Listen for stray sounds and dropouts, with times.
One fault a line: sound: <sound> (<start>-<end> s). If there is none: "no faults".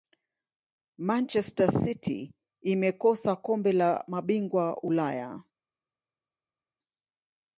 no faults